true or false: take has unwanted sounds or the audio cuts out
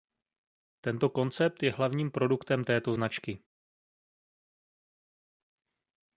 false